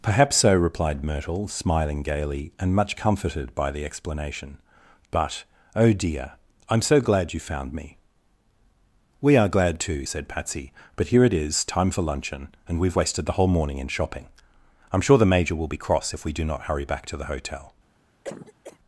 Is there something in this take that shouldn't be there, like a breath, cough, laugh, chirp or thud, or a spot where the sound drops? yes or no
yes